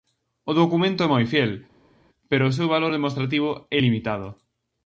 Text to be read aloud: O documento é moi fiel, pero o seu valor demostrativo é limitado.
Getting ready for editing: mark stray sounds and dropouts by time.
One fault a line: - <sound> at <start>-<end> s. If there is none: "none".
none